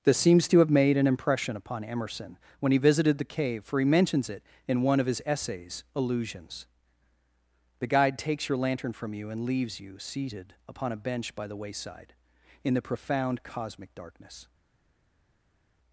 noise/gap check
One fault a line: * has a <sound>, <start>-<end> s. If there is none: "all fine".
all fine